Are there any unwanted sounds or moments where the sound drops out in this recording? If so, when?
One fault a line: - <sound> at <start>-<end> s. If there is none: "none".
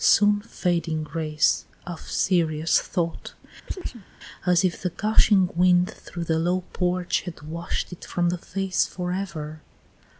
- chirp at 3.7-4.1 s